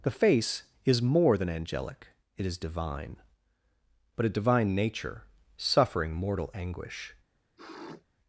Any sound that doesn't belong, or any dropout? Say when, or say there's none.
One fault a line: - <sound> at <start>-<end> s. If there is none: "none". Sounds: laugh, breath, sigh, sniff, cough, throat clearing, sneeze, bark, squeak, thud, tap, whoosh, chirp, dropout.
- sniff at 7.6-8.0 s